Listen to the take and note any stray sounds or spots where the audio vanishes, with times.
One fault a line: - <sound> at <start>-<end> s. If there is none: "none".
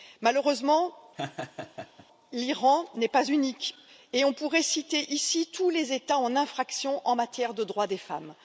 - laugh at 1.2-2.1 s